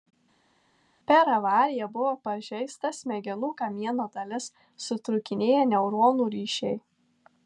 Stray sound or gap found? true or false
false